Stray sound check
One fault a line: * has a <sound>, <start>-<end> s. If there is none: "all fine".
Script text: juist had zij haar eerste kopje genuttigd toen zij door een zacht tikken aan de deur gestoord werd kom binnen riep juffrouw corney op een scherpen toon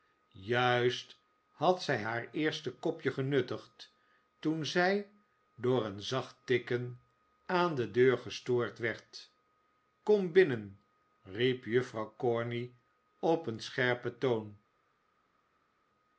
all fine